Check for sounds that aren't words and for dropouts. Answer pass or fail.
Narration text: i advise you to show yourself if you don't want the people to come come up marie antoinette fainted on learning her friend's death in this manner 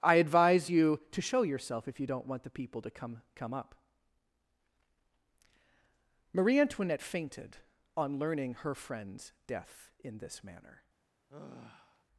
fail